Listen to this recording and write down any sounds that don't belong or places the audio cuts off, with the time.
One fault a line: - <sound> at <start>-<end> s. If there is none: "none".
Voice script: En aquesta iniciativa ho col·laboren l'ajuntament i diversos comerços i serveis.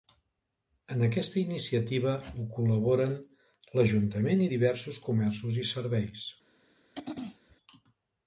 - throat clearing at 7.0-7.6 s